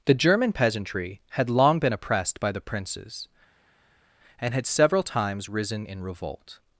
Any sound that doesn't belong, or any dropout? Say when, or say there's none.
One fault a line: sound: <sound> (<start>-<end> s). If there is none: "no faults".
no faults